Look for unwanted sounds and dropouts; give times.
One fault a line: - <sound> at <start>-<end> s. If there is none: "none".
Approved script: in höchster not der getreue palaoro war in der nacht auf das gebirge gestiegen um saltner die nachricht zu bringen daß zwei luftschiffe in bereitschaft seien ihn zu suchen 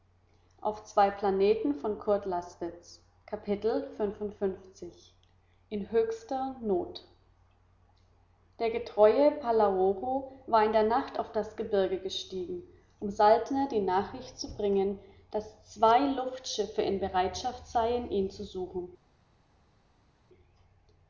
none